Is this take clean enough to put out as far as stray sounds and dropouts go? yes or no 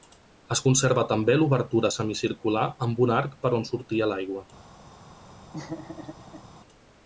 no